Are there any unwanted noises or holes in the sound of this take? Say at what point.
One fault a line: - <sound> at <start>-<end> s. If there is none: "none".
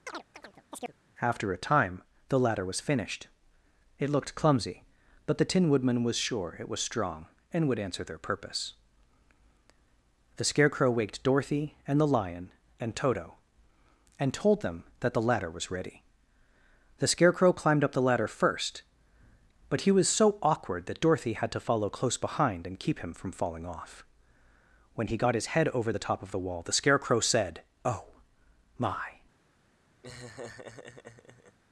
- chirp at 0.1-0.9 s
- laugh at 30.0-31.6 s